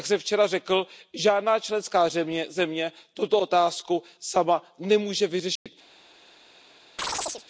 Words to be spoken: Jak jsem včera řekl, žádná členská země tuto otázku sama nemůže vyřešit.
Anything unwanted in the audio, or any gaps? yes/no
yes